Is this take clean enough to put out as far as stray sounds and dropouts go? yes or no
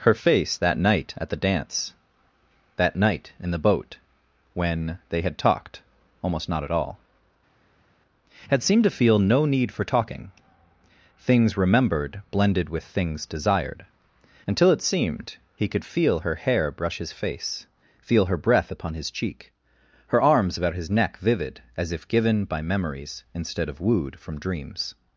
yes